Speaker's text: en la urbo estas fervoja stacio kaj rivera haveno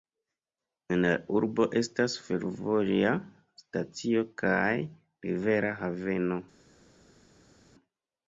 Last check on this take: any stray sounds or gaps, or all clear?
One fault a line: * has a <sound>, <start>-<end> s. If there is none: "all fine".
all fine